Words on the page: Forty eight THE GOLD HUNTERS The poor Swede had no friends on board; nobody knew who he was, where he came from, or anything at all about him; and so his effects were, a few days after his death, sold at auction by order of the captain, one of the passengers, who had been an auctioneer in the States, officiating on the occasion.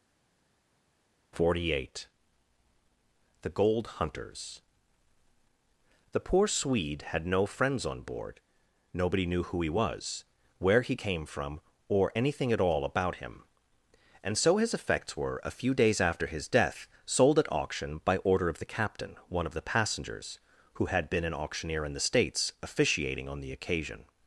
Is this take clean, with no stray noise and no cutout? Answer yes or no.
yes